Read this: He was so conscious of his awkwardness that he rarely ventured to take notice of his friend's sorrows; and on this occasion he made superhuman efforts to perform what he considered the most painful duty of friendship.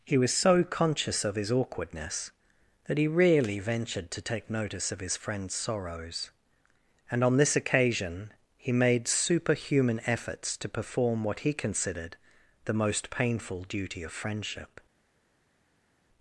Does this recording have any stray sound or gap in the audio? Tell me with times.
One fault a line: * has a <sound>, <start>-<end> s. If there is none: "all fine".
all fine